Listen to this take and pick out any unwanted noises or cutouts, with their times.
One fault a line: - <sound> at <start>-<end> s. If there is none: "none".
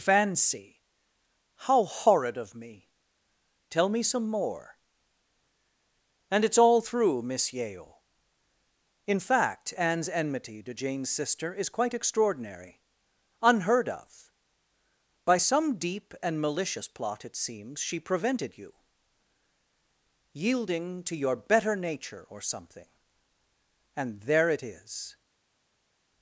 none